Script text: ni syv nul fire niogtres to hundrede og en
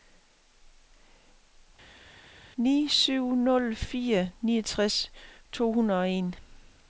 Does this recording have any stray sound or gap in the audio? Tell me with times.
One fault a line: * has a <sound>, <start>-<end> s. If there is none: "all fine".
all fine